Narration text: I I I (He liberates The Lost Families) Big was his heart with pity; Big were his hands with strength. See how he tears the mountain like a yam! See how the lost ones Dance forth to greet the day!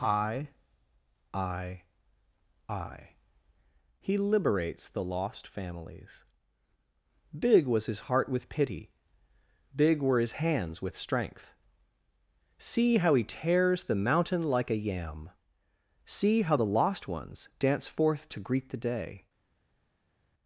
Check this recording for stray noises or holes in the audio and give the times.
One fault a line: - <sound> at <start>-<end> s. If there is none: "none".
none